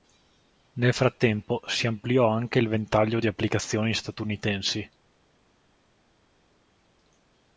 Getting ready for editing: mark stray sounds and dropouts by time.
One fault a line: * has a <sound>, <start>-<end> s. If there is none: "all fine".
all fine